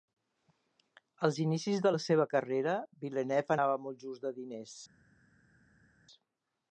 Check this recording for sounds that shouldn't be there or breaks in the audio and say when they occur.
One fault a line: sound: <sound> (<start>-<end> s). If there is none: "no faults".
no faults